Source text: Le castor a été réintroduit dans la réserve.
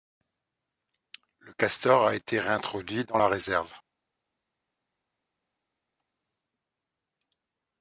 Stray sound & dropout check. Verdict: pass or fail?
pass